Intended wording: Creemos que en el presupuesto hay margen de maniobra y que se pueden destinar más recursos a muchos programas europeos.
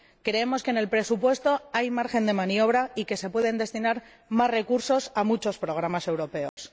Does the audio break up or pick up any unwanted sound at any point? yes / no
yes